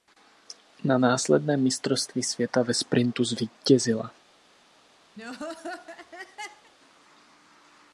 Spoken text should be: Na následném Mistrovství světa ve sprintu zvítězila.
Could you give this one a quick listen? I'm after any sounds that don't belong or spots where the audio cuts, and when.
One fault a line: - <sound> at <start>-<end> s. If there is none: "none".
- laugh at 5.2-6.7 s